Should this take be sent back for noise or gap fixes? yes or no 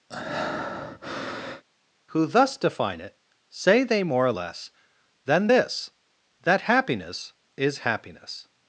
yes